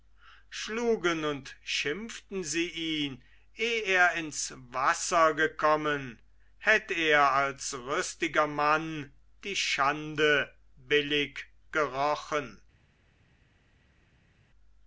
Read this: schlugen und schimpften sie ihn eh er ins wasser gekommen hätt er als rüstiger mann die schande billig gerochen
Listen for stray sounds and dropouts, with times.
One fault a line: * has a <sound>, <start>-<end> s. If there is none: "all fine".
all fine